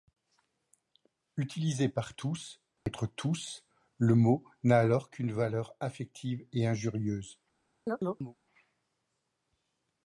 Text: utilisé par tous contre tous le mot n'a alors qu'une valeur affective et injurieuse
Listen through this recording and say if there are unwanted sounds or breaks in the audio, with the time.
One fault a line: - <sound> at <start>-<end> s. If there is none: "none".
- dropout at 2.8-2.9 s
- chirp at 7.9-8.4 s